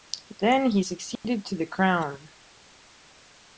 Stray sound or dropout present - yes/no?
yes